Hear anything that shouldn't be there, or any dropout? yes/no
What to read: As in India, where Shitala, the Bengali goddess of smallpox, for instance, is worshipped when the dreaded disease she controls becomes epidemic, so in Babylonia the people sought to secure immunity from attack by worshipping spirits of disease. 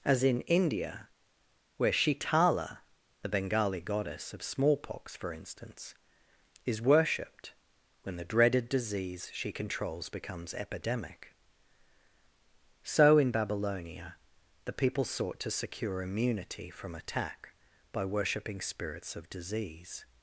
no